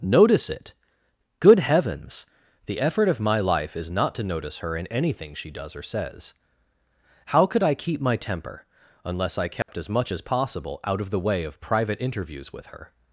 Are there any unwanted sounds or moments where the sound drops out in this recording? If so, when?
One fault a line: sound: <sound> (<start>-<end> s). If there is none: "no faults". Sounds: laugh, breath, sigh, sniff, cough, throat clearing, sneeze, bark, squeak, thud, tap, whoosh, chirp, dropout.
sound: dropout (9.6-9.7 s)